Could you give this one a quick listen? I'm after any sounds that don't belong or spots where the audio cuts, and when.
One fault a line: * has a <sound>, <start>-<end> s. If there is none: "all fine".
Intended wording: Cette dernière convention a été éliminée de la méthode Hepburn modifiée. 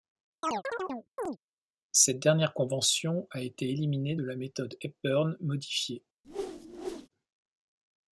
* has a chirp, 0.4-1.4 s
* has a whoosh, 6.2-7.1 s